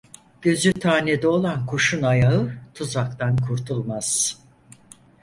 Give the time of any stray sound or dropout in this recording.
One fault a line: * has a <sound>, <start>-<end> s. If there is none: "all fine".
* has a dropout, 0.7-0.8 s